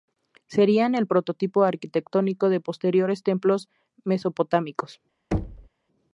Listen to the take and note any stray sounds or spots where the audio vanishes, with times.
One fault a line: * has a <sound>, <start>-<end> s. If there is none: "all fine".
* has a thud, 5.3-5.7 s